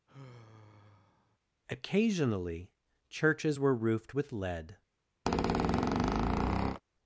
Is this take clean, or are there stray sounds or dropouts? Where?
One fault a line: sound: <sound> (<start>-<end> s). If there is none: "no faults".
sound: sigh (0.1-1.4 s)
sound: squeak (5.3-6.8 s)